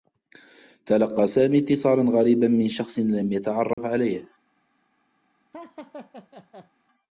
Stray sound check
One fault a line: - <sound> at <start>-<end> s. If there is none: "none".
- dropout at 3.7-3.8 s
- laugh at 5.5-6.7 s